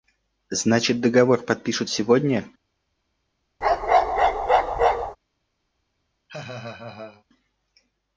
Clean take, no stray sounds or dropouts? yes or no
no